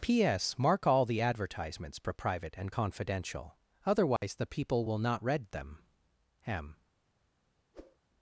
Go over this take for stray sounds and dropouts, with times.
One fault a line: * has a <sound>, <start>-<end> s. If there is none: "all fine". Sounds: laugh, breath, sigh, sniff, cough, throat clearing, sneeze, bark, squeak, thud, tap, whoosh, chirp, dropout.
* has a dropout, 4.2-4.2 s
* has a whoosh, 7.7-8.0 s